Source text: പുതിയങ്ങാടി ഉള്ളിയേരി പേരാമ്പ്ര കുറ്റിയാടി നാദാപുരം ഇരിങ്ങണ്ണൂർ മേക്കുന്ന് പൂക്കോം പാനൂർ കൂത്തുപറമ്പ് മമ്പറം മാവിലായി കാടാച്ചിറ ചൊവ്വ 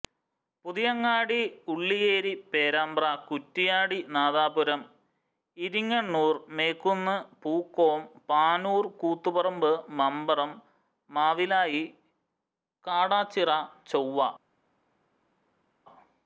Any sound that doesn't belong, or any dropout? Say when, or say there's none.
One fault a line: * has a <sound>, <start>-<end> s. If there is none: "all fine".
all fine